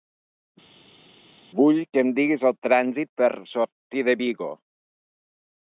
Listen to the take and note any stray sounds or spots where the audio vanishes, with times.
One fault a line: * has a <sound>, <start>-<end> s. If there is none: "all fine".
all fine